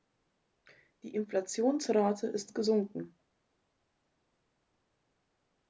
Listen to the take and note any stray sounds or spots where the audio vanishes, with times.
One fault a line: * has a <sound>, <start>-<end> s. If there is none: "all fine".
all fine